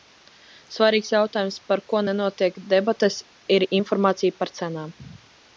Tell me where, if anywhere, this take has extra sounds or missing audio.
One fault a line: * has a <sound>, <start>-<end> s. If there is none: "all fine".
all fine